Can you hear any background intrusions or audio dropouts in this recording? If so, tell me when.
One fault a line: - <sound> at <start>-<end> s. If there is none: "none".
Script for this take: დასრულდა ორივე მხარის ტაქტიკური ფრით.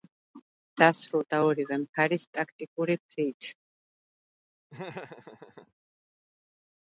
- laugh at 4.7-5.7 s